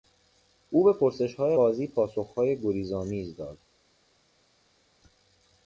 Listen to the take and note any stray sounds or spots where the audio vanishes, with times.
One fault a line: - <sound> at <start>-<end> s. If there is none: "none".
none